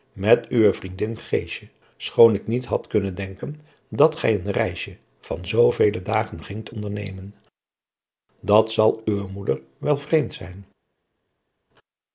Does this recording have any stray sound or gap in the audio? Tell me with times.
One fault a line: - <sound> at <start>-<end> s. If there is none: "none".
none